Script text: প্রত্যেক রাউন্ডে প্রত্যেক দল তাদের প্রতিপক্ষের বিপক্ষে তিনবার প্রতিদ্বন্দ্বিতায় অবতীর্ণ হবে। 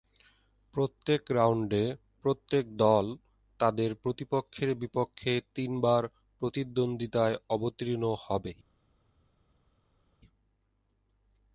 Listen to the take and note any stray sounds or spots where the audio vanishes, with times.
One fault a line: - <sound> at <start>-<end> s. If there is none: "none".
none